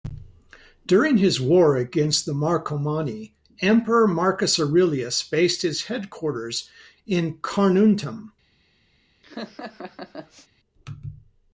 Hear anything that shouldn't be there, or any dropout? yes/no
yes